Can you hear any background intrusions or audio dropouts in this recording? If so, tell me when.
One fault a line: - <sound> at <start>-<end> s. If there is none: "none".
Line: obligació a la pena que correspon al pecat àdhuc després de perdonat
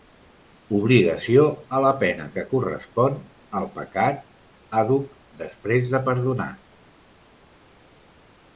none